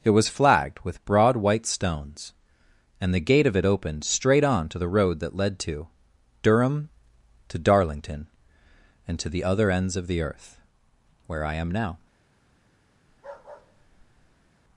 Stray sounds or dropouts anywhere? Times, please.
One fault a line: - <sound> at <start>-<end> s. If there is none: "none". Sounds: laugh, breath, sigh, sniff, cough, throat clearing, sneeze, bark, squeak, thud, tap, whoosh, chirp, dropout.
- bark at 13.1-14.5 s